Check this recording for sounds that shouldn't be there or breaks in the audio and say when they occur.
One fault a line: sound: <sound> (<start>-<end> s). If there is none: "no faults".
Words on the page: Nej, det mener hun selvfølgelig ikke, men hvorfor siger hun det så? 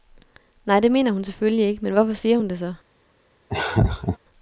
sound: laugh (3.5-4.2 s)